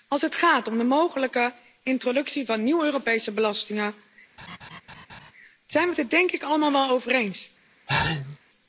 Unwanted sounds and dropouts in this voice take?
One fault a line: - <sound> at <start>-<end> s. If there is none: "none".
- laugh at 4.4-5.3 s
- sneeze at 7.9-8.4 s